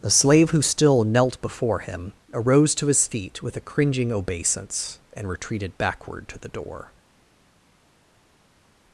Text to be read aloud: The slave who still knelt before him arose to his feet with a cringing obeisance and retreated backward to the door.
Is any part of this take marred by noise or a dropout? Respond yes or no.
no